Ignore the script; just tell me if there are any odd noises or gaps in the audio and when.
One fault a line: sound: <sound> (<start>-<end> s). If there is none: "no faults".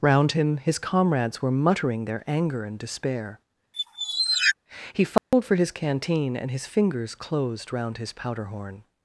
sound: squeak (3.7-4.5 s)
sound: dropout (5.2-5.3 s)